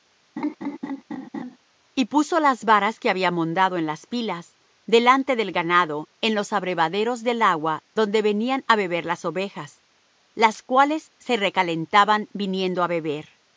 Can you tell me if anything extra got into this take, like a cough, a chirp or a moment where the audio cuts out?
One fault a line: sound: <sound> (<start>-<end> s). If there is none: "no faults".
sound: laugh (0.4-1.6 s)